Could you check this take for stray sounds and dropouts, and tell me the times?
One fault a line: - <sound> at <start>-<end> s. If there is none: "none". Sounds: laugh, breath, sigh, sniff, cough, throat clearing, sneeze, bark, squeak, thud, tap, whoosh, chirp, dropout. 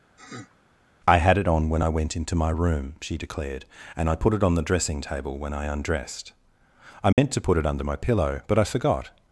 - sniff at 0.2-0.6 s
- dropout at 7.1-7.2 s